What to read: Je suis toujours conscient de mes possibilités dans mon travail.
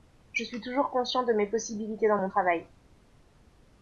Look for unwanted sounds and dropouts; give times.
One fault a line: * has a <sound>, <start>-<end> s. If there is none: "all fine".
all fine